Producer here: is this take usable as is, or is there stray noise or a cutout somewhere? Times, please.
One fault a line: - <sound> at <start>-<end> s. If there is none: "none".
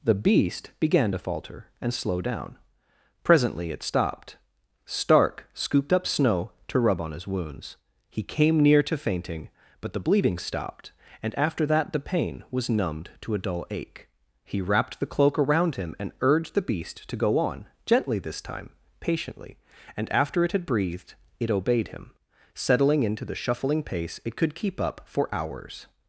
none